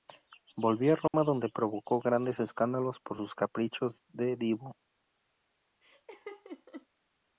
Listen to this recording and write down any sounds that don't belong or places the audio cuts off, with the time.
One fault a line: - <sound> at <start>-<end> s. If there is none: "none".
- dropout at 1.1-1.1 s
- laugh at 5.8-6.9 s